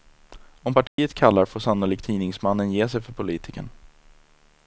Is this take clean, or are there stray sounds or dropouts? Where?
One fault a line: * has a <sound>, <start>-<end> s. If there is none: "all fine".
* has a dropout, 0.9-1.0 s